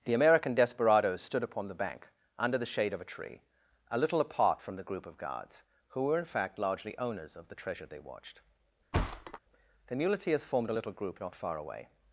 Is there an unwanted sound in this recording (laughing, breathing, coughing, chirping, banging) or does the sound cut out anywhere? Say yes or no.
yes